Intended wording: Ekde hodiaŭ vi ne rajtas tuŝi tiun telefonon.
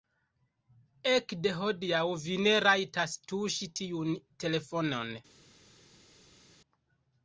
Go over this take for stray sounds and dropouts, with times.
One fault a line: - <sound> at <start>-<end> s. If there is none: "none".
none